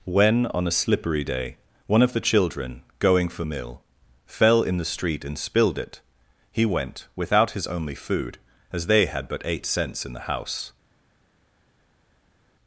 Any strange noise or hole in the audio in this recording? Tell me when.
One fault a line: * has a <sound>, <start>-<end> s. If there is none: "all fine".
all fine